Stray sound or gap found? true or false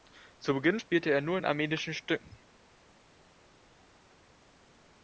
false